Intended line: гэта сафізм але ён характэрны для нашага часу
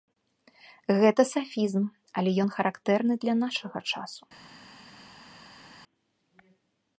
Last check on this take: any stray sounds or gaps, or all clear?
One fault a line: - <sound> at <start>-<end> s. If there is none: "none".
none